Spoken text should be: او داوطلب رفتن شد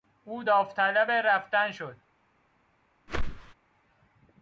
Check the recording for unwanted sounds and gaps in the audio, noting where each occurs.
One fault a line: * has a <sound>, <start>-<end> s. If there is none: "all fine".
* has a whoosh, 3.1-3.5 s